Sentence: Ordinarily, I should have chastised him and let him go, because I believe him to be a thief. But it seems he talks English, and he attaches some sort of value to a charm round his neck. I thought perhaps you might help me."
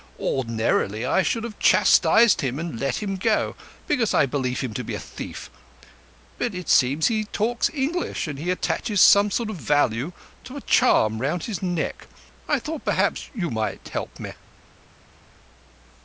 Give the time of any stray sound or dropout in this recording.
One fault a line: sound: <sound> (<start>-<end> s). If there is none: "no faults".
no faults